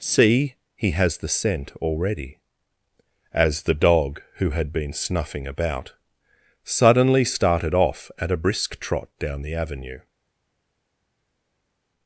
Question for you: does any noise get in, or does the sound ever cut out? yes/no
no